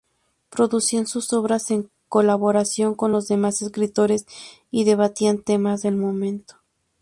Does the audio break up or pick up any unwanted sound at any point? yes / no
no